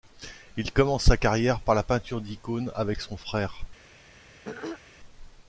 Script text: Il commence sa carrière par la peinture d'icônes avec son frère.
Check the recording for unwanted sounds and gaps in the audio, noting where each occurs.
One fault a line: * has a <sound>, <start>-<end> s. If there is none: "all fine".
* has a throat clearing, 4.4-4.8 s